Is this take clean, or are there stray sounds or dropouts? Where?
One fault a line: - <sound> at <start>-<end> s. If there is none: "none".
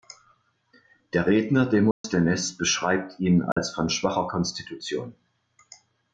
- dropout at 1.9-2.0 s
- dropout at 3.5-3.6 s